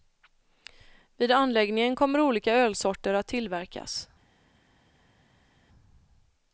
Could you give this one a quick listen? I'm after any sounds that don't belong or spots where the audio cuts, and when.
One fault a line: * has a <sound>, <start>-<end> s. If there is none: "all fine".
all fine